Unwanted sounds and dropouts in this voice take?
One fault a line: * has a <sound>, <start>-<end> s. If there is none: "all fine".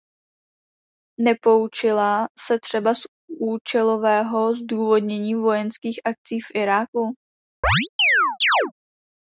* has a chirp, 7.6-8.7 s